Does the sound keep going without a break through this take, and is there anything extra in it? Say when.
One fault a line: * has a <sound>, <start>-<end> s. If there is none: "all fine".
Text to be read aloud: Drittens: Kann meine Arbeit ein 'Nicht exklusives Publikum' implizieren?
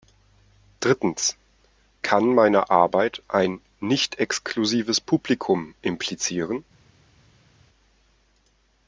all fine